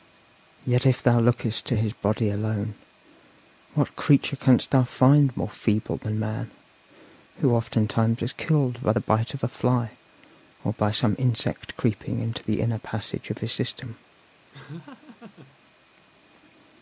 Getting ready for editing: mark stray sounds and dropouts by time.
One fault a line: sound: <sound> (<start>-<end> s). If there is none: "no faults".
sound: laugh (14.5-15.6 s)